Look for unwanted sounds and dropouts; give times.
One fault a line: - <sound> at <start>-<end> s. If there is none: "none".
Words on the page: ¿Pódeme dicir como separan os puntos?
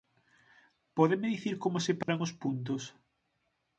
- dropout at 2.0-2.1 s